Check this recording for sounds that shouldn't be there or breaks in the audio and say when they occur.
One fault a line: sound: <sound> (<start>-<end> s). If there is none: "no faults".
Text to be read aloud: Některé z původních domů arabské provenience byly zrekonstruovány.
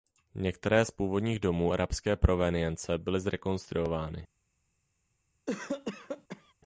sound: cough (5.5-6.5 s)